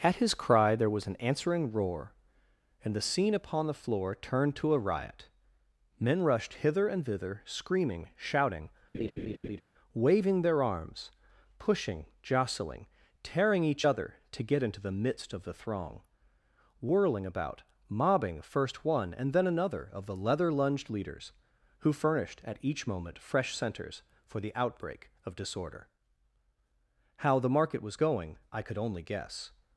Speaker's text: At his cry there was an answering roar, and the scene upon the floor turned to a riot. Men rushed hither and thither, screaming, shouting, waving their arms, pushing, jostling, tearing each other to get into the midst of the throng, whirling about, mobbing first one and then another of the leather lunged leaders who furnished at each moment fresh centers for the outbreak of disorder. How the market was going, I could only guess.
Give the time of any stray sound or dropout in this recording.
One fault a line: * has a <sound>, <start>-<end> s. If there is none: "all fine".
* has a laugh, 8.9-9.6 s